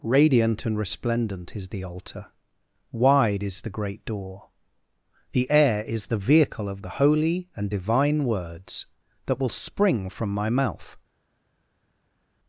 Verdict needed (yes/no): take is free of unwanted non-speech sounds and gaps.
yes